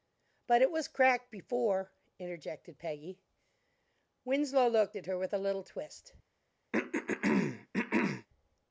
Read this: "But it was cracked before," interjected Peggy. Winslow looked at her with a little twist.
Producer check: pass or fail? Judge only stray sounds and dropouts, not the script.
fail